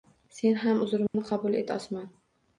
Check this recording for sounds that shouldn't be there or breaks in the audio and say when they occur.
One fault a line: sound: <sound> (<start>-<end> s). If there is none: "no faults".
sound: dropout (1.1-1.1 s)